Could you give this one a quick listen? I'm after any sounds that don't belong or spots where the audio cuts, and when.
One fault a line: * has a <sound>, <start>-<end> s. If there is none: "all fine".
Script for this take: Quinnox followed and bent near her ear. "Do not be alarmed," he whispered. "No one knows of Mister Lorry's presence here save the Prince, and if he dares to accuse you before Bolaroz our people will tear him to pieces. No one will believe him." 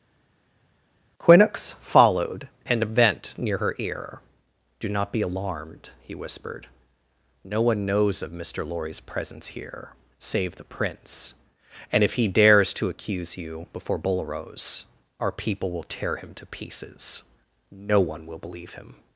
all fine